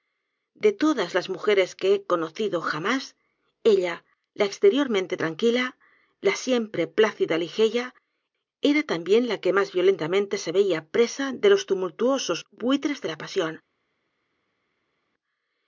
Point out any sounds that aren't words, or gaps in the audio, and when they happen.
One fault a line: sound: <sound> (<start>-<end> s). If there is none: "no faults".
no faults